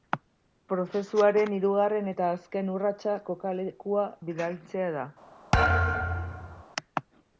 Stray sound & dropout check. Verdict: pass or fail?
fail